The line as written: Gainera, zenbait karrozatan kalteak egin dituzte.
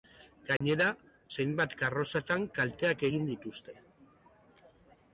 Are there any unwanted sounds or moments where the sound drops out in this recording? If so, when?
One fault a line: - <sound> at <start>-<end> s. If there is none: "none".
- dropout at 0.6-0.6 s